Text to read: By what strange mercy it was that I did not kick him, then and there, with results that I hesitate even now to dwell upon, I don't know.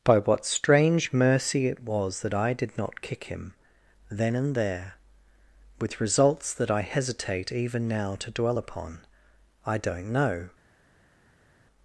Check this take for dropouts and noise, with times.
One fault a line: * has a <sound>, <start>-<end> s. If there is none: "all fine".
all fine